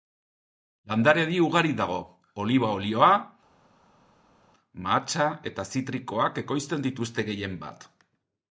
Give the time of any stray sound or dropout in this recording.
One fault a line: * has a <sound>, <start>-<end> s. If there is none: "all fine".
all fine